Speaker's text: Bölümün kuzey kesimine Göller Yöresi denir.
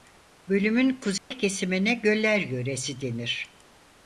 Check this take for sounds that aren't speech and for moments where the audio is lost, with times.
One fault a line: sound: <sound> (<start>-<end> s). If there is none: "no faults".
sound: dropout (1.2-1.3 s)